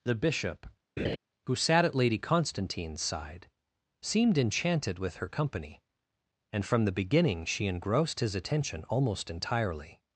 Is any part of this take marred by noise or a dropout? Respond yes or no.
yes